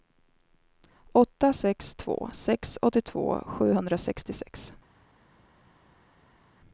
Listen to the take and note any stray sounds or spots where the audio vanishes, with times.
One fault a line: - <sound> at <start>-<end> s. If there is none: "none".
none